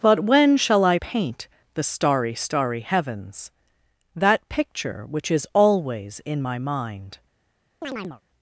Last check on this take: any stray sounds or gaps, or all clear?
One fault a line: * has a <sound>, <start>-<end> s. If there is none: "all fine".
* has a chirp, 7.8-8.2 s